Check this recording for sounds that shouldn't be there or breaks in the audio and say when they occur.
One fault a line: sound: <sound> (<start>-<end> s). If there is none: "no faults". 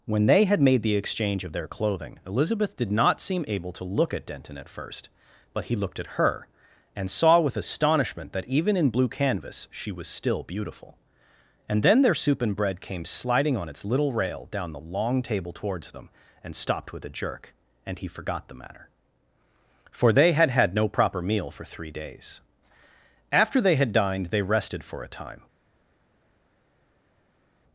no faults